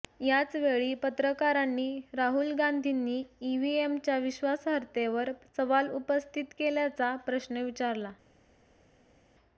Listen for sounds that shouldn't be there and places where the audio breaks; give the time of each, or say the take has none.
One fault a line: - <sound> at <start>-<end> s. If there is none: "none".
none